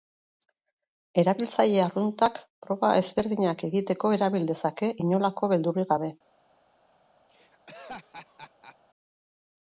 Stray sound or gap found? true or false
true